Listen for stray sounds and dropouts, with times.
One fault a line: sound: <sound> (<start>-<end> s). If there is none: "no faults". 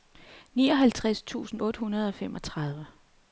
no faults